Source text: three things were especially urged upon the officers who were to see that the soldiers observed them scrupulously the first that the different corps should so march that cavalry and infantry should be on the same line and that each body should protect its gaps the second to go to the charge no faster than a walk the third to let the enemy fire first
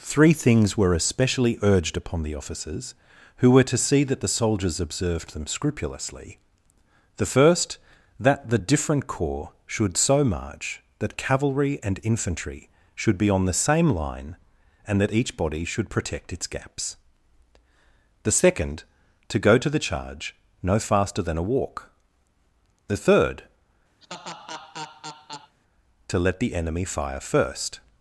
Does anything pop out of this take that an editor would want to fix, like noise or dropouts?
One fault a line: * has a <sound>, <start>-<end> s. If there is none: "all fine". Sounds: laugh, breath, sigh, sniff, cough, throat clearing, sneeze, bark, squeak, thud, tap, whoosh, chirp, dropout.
* has a laugh, 24.0-25.6 s